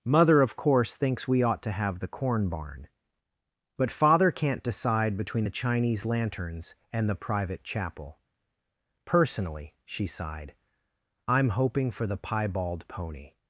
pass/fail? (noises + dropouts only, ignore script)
pass